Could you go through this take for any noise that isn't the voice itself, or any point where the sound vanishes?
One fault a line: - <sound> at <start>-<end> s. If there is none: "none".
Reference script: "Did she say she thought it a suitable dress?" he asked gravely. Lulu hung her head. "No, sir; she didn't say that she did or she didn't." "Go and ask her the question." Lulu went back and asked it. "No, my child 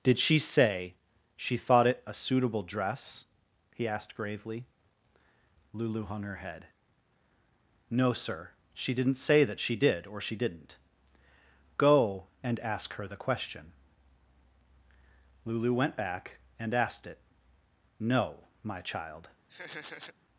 - laugh at 19.5-20.1 s